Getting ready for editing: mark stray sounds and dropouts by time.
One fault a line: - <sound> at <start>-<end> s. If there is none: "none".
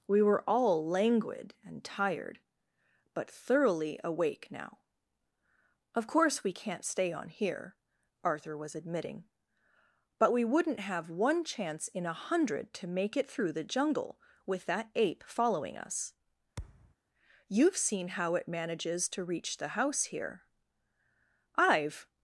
- thud at 16.6-17.0 s